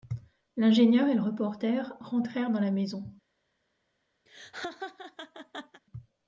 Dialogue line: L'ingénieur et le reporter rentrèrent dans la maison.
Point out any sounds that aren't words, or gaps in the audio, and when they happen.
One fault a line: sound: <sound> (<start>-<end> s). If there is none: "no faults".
sound: laugh (4.3-5.8 s)